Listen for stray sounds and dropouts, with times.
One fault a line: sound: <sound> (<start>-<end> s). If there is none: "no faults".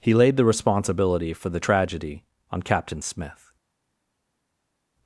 no faults